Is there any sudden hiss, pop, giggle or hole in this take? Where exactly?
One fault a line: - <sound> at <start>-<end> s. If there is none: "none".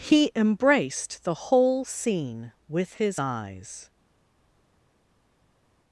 none